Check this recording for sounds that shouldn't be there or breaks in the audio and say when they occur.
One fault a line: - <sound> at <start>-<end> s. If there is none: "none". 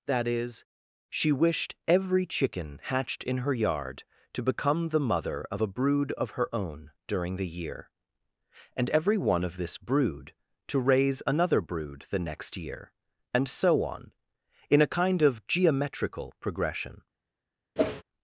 - whoosh at 17.8-18.0 s